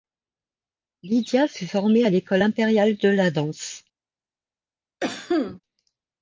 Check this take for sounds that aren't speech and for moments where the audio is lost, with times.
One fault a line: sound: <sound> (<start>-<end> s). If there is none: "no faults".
sound: cough (5.0-5.6 s)